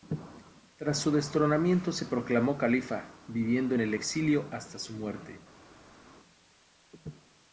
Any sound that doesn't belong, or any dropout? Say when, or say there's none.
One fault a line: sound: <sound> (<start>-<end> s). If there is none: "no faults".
no faults